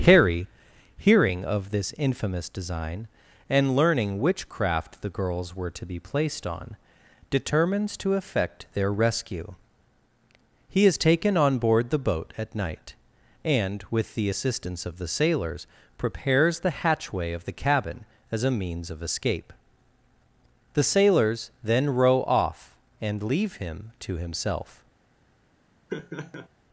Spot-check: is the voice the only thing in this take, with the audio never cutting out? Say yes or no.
no